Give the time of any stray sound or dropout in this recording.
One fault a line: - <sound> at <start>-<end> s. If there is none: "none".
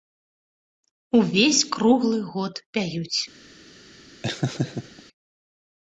- laugh at 4.2-5.0 s